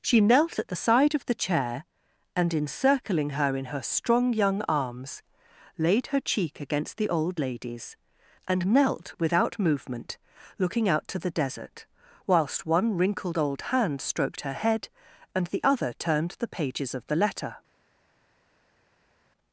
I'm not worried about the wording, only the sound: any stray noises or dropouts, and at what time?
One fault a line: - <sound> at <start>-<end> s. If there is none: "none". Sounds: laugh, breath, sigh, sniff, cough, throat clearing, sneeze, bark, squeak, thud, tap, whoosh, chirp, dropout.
none